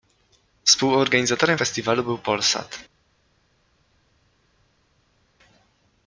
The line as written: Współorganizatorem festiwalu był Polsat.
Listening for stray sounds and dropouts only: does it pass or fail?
pass